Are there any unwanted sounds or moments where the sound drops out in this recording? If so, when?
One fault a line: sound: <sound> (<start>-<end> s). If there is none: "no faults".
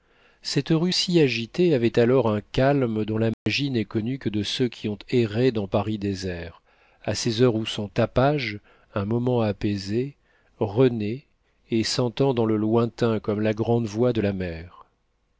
sound: dropout (3.3-3.5 s)